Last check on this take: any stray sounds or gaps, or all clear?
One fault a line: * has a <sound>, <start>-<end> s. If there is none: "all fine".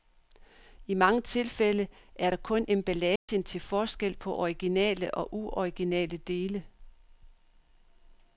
* has a dropout, 3.2-3.3 s